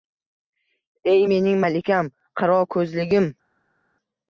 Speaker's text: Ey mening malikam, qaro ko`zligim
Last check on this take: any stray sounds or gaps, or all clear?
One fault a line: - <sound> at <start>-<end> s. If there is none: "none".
none